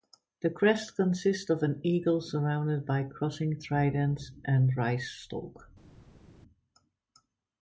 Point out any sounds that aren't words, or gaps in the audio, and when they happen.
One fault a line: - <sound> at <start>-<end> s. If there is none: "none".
none